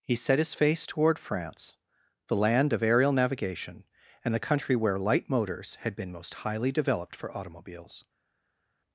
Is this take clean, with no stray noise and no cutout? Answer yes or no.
yes